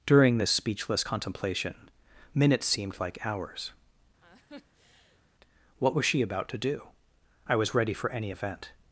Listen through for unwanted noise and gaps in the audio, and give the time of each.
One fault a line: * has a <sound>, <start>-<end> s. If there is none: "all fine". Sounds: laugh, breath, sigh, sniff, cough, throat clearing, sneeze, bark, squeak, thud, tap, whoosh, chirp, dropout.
* has a laugh, 4.2-5.2 s